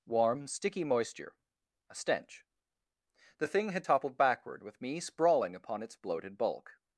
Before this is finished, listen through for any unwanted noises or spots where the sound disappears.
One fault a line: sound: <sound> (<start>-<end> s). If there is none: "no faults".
no faults